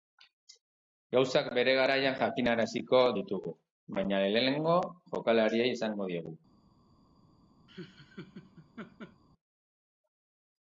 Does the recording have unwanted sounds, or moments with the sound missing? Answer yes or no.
yes